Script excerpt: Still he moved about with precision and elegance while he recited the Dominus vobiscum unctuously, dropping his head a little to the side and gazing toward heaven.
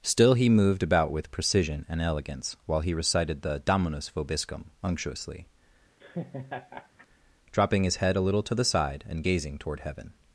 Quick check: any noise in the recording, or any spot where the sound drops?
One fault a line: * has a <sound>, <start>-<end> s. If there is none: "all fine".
* has a laugh, 6.0-7.1 s